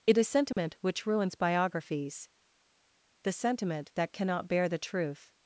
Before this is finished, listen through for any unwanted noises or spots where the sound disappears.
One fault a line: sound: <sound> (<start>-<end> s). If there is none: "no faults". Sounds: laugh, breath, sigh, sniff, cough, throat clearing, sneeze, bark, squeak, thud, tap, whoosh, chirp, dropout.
sound: dropout (0.5-0.6 s)